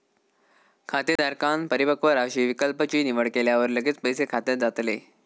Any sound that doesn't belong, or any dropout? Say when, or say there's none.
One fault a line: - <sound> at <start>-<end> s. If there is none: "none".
- dropout at 1.2-1.2 s